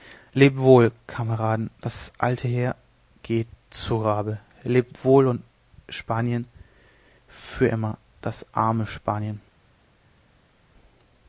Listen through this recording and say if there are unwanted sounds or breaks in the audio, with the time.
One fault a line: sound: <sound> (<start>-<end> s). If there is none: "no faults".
no faults